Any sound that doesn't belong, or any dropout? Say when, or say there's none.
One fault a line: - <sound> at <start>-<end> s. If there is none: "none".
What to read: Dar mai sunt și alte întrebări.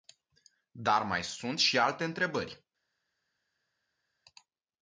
none